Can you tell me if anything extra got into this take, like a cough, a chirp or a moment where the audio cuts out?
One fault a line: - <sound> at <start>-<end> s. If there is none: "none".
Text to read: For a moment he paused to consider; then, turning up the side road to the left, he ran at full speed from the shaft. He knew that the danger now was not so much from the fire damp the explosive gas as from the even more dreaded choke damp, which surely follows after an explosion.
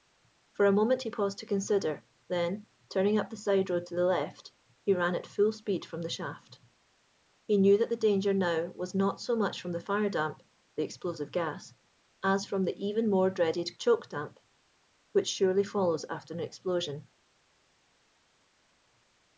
none